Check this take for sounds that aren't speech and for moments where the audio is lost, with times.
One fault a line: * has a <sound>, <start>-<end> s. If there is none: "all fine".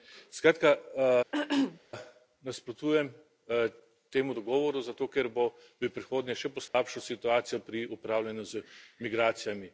* has a throat clearing, 1.3-1.8 s
* has a dropout, 6.7-6.7 s